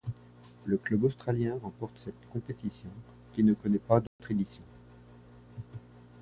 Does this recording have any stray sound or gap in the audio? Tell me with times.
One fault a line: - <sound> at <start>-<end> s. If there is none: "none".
- dropout at 4.1-4.2 s